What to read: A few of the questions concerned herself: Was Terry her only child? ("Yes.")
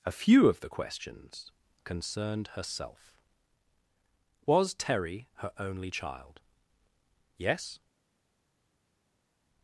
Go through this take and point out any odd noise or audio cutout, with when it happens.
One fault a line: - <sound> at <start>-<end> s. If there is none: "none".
none